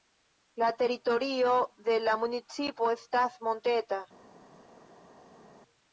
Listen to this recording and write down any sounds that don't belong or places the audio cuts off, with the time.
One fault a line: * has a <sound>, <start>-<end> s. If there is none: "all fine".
all fine